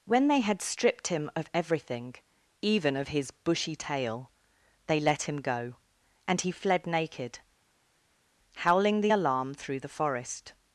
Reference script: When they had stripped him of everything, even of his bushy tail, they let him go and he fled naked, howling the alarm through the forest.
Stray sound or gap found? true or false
false